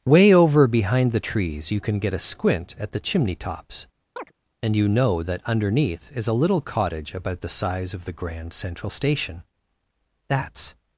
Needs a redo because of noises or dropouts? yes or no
yes